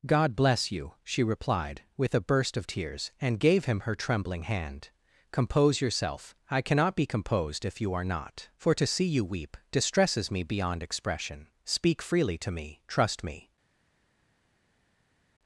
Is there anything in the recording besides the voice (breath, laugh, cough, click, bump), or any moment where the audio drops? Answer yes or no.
no